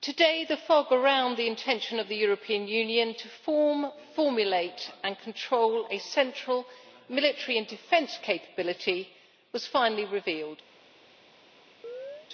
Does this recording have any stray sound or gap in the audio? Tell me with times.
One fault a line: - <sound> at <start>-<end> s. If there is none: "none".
- chirp at 11.8-12.3 s